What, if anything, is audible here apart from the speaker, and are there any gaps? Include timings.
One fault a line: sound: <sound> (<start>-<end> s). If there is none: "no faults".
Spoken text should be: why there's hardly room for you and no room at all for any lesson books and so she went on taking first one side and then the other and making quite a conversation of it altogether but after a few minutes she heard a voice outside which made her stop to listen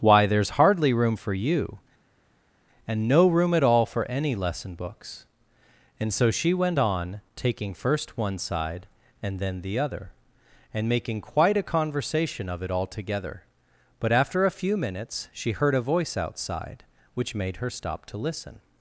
no faults